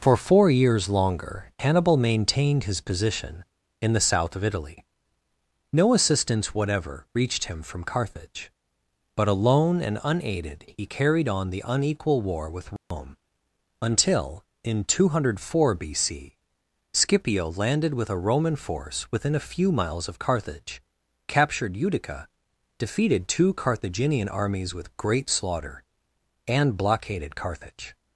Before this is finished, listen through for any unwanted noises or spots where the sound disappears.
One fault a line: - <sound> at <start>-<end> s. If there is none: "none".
- dropout at 12.8-12.9 s